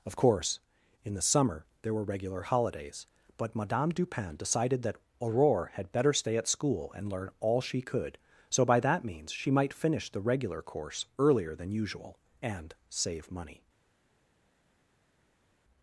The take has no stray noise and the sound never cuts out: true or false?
true